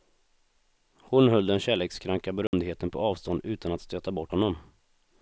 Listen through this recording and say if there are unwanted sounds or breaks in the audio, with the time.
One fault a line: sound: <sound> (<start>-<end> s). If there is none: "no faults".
sound: dropout (2.5-2.5 s)